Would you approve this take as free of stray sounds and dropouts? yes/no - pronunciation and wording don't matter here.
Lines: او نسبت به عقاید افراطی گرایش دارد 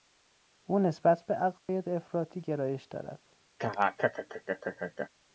no